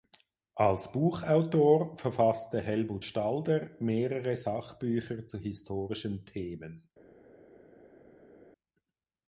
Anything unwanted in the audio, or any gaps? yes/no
no